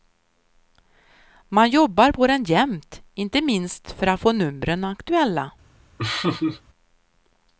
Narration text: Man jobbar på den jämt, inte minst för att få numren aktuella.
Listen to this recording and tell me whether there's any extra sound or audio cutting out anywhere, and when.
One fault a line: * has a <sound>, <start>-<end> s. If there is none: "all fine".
* has a laugh, 6.0-6.6 s